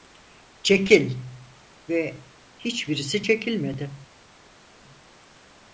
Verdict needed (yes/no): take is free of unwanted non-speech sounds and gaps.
yes